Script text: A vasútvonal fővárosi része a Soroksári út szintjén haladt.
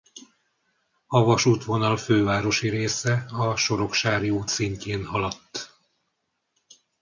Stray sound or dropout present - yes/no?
no